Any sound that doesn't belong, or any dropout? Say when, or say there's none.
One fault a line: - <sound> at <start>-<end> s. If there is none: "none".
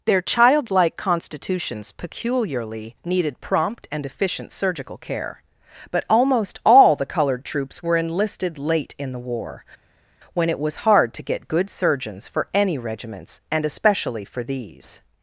none